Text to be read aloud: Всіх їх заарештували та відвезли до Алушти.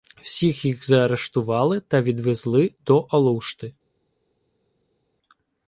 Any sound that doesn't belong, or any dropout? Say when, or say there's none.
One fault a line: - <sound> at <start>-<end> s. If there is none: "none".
none